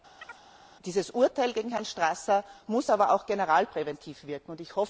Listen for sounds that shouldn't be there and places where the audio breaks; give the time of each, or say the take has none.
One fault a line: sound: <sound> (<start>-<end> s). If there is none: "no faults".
sound: chirp (0.2-0.4 s)